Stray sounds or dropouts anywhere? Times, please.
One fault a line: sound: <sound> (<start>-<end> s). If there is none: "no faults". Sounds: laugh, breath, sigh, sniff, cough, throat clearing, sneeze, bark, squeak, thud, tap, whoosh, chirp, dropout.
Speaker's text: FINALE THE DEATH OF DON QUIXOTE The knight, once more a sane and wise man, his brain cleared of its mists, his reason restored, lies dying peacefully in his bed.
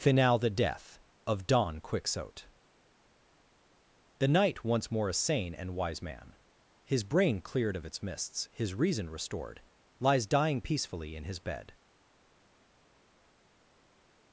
no faults